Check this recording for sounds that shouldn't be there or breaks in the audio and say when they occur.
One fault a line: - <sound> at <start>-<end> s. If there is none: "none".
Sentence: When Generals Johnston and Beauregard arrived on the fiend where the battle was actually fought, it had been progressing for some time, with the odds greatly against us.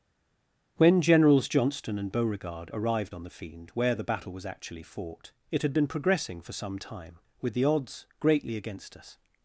none